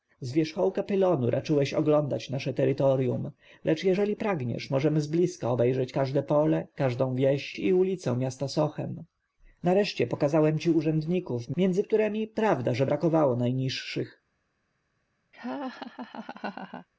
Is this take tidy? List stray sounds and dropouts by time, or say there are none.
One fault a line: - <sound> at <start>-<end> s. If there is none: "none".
- laugh at 15.3-16.9 s